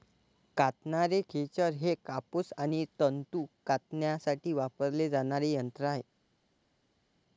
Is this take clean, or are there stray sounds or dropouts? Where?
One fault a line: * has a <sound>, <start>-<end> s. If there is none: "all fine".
all fine